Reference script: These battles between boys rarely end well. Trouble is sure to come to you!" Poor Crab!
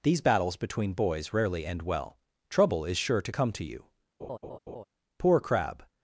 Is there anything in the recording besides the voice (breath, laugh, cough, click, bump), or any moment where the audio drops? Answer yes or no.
yes